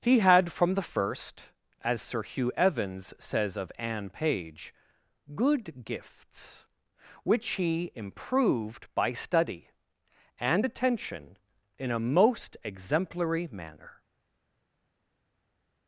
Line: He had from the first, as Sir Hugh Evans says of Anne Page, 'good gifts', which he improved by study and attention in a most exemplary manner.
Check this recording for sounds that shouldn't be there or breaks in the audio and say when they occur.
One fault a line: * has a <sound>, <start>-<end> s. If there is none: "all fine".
all fine